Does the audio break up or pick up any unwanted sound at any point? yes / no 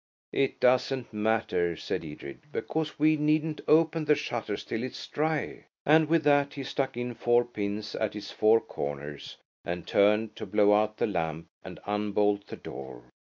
no